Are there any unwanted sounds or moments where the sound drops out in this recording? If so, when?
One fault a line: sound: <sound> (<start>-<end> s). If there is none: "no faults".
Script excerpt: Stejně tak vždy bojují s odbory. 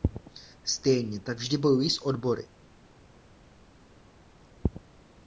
no faults